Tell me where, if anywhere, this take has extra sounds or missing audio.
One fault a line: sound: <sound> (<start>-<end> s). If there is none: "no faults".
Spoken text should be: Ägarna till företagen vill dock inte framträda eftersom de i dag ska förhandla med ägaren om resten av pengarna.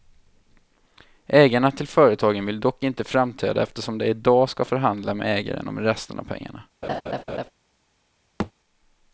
sound: laugh (6.8-7.5 s)
sound: thud (8.4-8.5 s)